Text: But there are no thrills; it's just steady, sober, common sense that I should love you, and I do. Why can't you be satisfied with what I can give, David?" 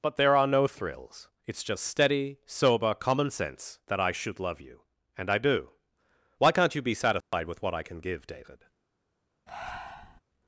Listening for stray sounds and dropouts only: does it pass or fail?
fail